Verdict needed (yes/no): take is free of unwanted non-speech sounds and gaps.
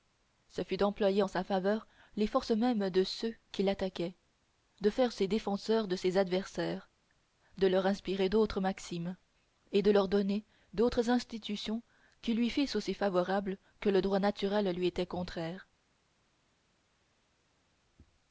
yes